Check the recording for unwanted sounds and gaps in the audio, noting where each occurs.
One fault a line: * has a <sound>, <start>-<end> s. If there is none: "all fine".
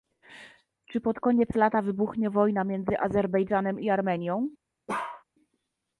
* has a bark, 4.9-5.2 s